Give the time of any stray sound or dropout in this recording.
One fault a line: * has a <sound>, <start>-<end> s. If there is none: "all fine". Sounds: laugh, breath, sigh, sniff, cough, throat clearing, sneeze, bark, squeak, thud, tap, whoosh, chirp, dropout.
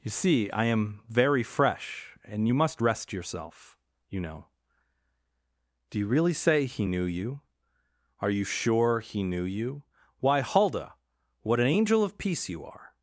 all fine